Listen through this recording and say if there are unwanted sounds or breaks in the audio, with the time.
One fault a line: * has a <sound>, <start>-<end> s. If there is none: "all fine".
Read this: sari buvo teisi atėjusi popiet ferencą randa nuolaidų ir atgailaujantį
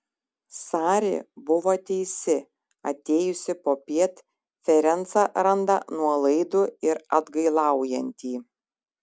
all fine